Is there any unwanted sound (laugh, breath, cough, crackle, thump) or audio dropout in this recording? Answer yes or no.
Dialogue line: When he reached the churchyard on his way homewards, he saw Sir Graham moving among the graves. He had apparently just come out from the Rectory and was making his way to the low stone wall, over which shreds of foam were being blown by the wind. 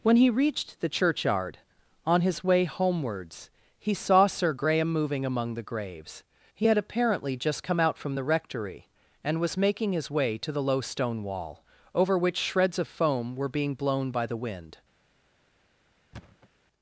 yes